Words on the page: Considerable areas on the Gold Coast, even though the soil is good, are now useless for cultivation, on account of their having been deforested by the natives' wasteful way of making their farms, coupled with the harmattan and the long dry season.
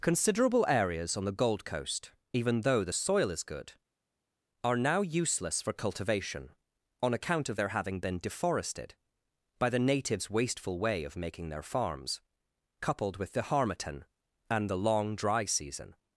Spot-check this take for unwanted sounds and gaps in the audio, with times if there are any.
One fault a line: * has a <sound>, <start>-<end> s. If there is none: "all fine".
all fine